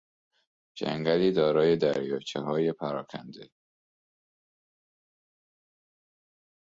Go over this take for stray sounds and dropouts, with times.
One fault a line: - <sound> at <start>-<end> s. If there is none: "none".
none